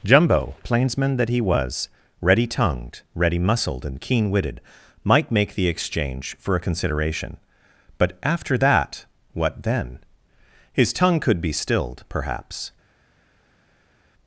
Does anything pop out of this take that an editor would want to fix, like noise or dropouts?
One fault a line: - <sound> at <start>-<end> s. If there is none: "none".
none